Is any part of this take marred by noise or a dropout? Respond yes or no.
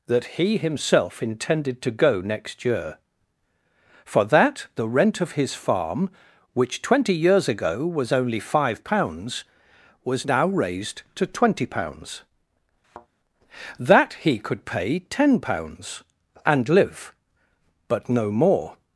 yes